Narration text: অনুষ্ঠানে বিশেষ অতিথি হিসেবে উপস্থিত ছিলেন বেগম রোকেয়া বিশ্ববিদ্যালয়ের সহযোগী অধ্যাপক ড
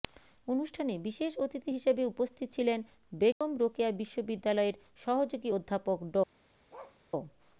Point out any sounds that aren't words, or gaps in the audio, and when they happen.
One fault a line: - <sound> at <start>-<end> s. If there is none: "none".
- dropout at 3.3-3.4 s
- bark at 6.7-7.0 s